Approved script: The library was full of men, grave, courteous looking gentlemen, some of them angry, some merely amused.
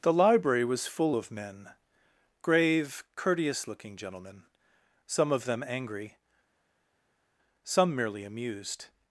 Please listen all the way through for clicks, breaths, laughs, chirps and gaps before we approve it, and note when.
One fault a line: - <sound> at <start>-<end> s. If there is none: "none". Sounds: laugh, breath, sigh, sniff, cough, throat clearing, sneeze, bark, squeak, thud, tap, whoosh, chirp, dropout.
none